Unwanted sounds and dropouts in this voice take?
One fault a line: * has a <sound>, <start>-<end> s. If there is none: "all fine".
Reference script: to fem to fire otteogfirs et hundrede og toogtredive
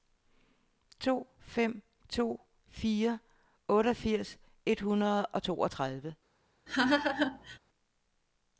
* has a laugh, 6.7-7.6 s